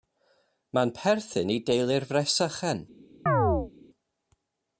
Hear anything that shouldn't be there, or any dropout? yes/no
yes